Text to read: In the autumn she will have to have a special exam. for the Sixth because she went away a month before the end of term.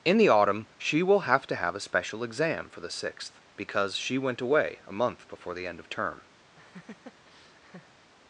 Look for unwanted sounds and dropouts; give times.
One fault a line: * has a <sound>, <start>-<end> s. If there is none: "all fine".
* has a laugh, 6.6-8.1 s